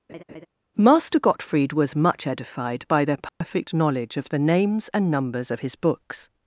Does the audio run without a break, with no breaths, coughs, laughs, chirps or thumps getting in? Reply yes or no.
no